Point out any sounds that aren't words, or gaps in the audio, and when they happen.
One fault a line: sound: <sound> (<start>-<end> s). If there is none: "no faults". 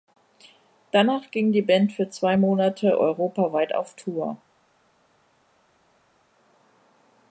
no faults